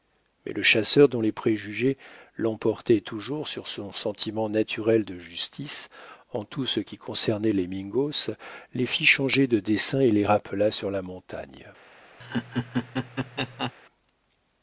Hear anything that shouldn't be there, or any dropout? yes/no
yes